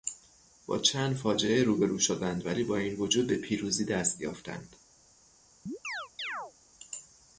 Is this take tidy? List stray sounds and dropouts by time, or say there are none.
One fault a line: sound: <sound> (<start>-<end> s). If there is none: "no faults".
sound: chirp (5.7-6.5 s)